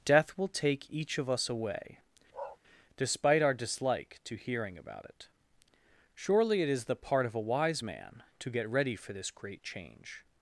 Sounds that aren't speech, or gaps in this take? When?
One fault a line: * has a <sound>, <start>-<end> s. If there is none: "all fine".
* has a bark, 2.3-2.6 s